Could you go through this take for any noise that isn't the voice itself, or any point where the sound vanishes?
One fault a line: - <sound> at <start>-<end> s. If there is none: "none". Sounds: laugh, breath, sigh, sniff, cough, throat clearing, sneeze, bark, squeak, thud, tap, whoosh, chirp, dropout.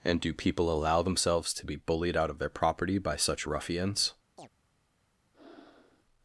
- chirp at 4.4-4.5 s
- breath at 5.3-6.0 s